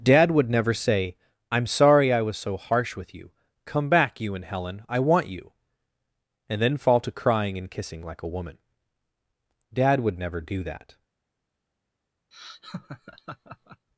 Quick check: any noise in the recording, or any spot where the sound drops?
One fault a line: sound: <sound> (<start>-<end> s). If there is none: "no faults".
sound: laugh (12.3-13.9 s)